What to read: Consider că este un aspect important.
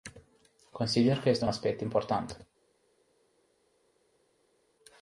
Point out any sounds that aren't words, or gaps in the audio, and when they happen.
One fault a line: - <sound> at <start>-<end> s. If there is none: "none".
none